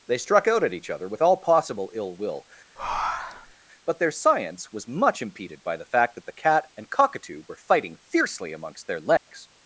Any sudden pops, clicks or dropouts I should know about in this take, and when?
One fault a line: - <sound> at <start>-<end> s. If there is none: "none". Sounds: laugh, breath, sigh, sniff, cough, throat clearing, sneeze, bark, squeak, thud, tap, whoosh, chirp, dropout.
- breath at 2.8-3.5 s
- dropout at 9.2-9.3 s